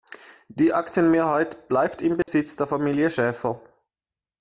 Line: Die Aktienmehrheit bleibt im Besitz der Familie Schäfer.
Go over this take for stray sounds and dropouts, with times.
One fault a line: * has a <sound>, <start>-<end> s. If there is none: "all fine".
* has a dropout, 2.2-2.3 s